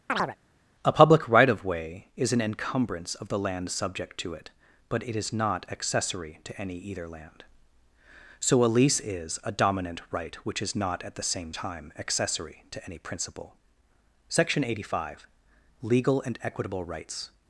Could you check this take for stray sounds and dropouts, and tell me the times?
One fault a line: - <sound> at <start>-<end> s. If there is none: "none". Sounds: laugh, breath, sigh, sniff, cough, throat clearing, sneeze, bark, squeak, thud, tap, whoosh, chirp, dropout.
- chirp at 0.1-0.4 s